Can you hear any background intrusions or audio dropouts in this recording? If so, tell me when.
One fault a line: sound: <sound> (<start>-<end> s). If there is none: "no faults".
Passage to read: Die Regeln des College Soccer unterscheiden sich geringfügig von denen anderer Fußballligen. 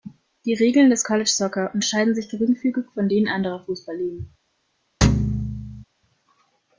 sound: thud (5.0-5.8 s)